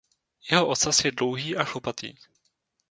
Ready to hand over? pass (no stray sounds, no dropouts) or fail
pass